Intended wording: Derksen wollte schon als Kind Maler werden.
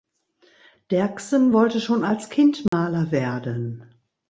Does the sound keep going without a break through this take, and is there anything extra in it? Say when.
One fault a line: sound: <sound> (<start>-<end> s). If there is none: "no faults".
sound: dropout (2.7-2.7 s)